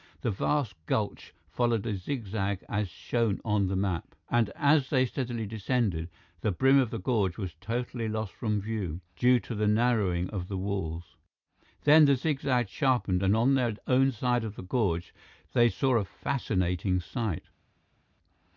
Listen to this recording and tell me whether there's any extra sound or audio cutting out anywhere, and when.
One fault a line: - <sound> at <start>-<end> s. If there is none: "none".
none